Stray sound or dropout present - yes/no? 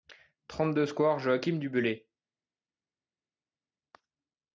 no